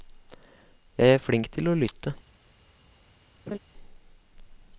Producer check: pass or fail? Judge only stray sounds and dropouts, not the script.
fail